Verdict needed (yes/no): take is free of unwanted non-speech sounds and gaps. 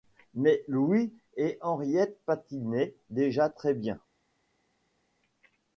yes